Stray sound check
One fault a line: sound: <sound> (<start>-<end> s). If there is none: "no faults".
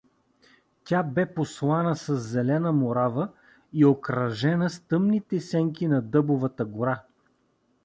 no faults